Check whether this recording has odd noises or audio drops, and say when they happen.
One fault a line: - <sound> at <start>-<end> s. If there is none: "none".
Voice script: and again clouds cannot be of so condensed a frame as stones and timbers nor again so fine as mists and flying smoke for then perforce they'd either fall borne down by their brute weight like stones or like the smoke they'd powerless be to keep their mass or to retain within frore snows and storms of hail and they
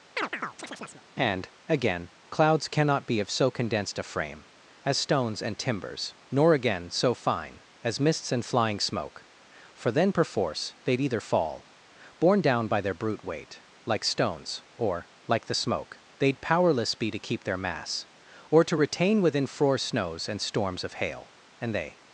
- chirp at 0.2-1.0 s